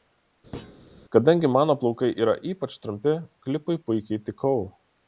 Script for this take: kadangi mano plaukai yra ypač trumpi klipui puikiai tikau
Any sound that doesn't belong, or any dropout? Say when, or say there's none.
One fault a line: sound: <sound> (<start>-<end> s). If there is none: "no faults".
sound: thud (0.5-0.8 s)